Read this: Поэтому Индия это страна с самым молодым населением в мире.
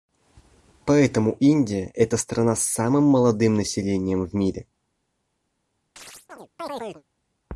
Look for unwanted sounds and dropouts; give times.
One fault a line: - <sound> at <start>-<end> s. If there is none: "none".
- chirp at 6.0-7.0 s